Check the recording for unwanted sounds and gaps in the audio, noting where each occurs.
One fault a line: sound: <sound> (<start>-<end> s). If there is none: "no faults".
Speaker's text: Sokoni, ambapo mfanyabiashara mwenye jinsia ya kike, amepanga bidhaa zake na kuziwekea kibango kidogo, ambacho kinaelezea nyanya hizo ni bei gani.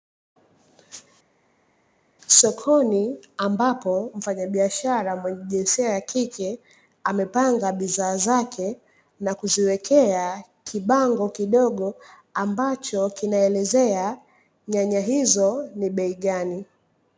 no faults